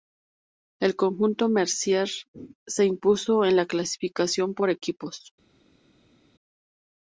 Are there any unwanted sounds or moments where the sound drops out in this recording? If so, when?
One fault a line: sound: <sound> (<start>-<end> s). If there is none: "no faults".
no faults